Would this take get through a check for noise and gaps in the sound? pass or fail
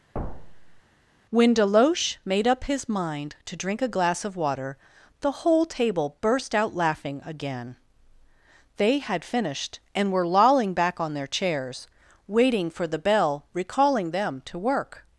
fail